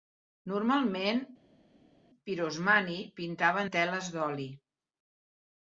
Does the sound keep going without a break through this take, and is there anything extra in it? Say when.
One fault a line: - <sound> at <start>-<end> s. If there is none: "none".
none